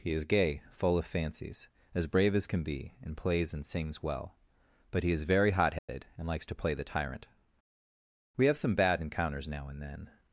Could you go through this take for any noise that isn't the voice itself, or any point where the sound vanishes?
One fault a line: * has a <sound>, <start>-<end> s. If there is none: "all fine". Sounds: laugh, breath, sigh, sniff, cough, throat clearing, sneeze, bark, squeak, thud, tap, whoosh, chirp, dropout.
* has a dropout, 5.8-5.9 s